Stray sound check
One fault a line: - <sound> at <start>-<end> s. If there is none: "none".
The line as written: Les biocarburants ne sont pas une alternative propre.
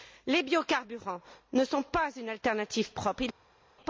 none